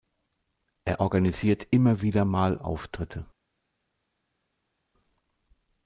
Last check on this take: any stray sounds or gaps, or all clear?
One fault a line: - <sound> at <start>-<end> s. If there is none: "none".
none